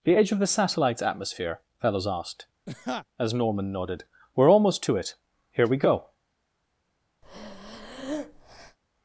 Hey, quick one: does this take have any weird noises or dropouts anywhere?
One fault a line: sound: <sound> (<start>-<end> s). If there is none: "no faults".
sound: laugh (2.7-3.1 s)
sound: breath (7.2-8.8 s)